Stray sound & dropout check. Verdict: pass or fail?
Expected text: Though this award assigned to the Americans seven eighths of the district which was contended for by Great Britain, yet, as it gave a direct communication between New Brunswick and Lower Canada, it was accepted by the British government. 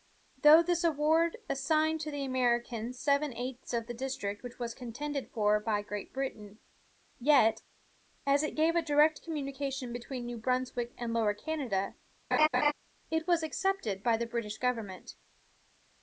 fail